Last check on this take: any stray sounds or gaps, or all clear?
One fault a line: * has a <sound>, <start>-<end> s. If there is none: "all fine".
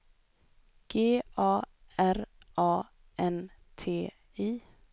all fine